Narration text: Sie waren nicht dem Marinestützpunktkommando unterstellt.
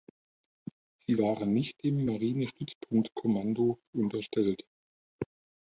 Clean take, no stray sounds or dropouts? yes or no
yes